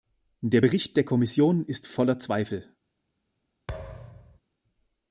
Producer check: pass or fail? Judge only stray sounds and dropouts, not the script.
fail